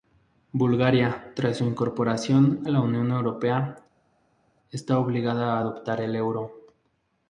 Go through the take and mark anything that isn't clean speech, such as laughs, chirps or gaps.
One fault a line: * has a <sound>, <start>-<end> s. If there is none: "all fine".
all fine